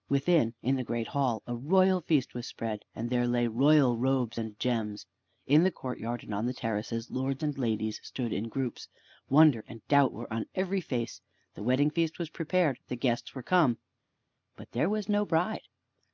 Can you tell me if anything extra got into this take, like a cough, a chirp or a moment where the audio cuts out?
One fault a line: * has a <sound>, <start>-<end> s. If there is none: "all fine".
all fine